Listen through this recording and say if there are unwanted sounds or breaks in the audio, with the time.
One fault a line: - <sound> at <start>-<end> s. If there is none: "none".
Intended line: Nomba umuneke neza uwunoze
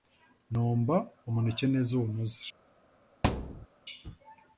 - thud at 3.2-3.7 s